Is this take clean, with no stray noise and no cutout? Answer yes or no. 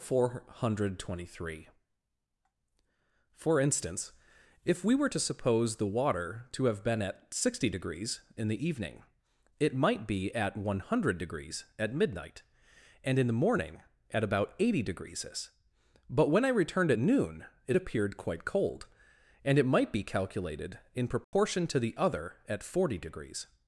no